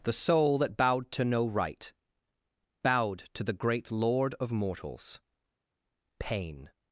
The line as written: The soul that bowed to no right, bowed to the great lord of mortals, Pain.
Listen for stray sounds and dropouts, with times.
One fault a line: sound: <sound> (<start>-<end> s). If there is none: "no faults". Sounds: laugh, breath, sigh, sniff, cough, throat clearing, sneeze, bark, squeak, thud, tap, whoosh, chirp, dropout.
no faults